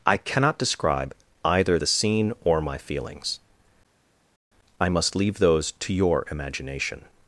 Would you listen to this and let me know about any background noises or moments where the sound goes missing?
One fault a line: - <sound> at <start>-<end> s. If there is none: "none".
none